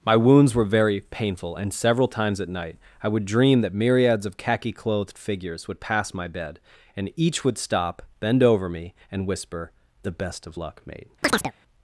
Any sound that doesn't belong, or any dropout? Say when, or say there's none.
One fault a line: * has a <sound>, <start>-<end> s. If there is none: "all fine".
* has a chirp, 11.2-11.5 s